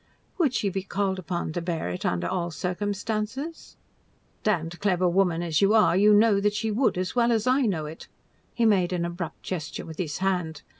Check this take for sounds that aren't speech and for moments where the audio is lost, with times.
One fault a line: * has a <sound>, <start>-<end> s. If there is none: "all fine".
all fine